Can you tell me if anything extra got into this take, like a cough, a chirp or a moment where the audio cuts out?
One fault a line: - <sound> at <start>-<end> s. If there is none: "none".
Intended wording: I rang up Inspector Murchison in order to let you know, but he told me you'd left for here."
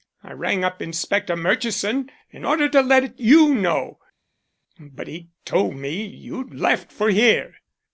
none